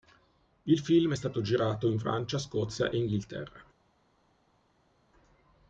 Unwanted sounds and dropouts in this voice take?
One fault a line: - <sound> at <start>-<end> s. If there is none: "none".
none